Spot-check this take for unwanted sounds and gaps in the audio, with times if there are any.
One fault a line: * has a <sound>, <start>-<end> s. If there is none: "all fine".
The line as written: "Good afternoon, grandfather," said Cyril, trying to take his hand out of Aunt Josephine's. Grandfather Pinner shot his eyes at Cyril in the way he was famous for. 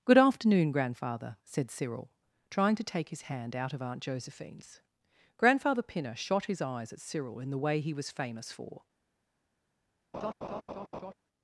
* has a laugh, 10.1-11.1 s